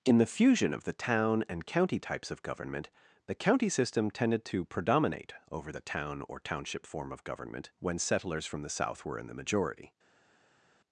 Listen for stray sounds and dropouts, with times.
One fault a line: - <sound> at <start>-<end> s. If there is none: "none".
none